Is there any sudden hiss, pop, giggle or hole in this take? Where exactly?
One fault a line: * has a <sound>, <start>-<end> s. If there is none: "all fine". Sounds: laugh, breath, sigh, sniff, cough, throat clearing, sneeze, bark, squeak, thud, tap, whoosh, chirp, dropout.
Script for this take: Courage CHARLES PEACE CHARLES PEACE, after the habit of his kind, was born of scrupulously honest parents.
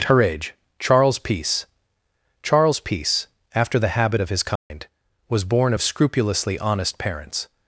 * has a dropout, 4.6-4.7 s